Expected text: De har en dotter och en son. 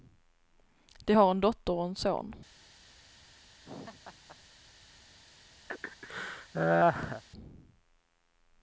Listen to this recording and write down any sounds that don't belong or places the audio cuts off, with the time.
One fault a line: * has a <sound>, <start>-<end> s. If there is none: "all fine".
* has a laugh, 3.6-4.4 s
* has a laugh, 5.7-7.2 s